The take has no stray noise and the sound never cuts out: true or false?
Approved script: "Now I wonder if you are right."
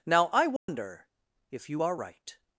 false